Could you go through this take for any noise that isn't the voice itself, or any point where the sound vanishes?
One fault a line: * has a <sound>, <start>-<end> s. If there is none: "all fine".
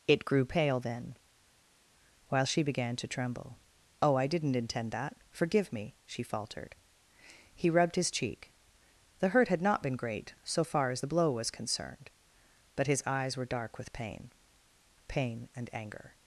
all fine